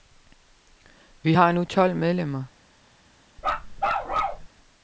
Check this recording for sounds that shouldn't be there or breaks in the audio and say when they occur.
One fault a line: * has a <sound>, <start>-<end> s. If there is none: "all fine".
* has a bark, 3.4-4.5 s